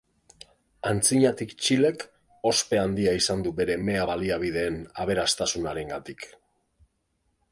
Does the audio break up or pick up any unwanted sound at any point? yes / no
no